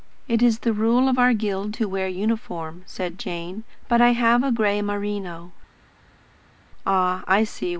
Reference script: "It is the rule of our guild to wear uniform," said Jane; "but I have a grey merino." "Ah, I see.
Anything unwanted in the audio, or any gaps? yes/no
no